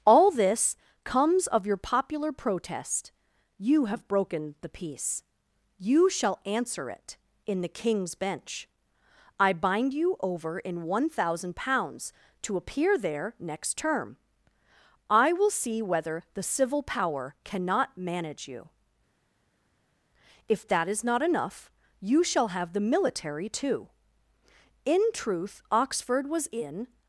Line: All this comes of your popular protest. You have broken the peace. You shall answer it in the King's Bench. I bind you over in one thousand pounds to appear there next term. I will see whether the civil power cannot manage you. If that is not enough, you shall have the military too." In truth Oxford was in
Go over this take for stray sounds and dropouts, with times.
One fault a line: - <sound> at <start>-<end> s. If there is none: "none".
none